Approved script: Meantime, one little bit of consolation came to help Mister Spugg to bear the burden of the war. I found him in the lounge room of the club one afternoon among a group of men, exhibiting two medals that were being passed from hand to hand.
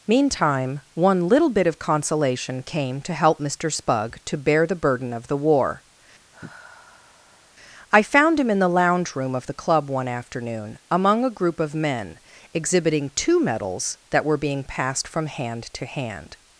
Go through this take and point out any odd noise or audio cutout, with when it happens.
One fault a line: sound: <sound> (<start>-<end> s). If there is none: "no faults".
sound: sigh (6.3-7.5 s)